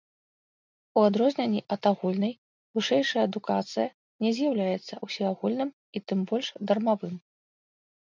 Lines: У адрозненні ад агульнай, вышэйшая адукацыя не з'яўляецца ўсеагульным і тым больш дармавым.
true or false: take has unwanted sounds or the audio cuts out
false